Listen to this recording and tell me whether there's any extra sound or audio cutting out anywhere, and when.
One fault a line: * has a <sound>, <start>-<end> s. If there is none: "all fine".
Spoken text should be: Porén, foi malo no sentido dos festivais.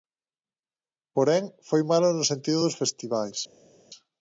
all fine